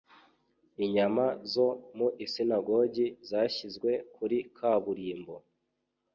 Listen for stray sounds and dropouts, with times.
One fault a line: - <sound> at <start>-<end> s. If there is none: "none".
none